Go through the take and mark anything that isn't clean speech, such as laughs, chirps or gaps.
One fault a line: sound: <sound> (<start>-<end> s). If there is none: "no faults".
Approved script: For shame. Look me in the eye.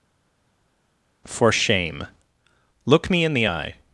no faults